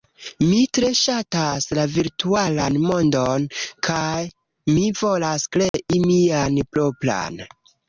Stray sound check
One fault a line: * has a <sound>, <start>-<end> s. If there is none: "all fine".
* has a dropout, 5.7-5.7 s